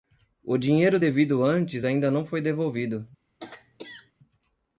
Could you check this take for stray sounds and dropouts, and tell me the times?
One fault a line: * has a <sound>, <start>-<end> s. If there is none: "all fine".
* has a throat clearing, 3.4-4.1 s